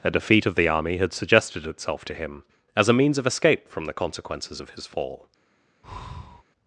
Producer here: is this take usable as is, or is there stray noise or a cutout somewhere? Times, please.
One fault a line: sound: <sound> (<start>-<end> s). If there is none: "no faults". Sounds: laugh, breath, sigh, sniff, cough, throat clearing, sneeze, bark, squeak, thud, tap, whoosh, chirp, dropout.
sound: breath (5.8-6.4 s)